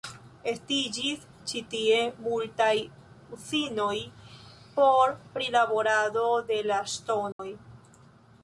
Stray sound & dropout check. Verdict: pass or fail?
fail